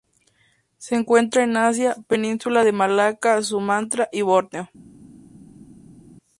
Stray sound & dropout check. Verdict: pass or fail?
pass